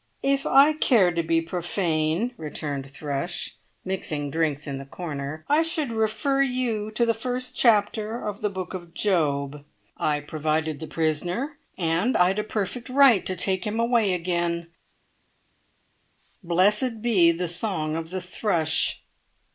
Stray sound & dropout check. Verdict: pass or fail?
pass